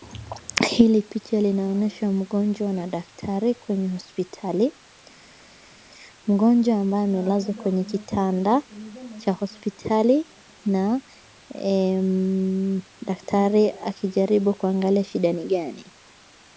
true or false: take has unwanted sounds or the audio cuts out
false